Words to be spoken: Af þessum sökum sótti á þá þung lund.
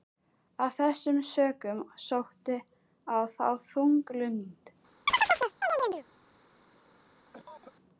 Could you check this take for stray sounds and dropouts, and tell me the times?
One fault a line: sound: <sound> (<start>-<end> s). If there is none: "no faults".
sound: chirp (5.1-6.0 s)
sound: cough (7.3-7.7 s)